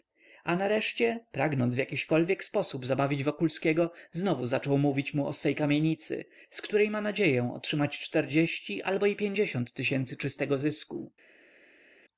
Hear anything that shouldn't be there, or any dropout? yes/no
no